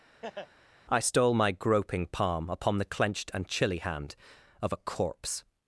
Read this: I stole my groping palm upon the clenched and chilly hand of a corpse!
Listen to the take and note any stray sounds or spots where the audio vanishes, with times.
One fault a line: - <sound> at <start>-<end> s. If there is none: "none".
- laugh at 0.2-0.5 s